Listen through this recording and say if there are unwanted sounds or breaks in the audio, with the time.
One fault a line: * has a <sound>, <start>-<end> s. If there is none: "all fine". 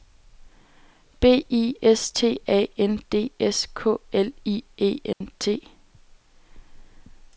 * has a dropout, 5.1-5.2 s